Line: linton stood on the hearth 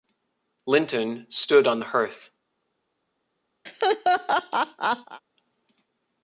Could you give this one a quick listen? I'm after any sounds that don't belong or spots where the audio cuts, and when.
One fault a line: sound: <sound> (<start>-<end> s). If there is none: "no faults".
sound: laugh (3.7-5.2 s)